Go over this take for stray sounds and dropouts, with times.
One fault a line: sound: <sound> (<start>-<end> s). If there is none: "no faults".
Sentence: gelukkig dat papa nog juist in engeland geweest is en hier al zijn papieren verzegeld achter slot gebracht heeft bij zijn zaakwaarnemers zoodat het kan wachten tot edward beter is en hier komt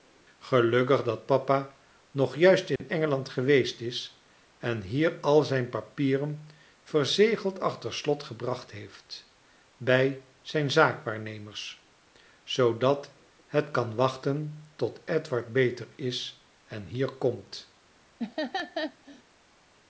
sound: dropout (2.8-2.8 s)
sound: laugh (18.2-19.2 s)